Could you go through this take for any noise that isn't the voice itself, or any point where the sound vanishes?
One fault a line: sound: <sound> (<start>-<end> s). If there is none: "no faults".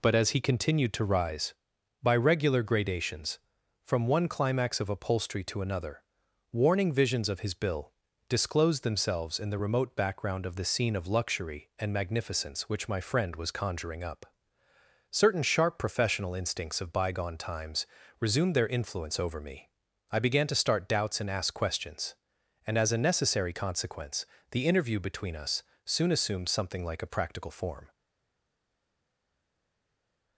no faults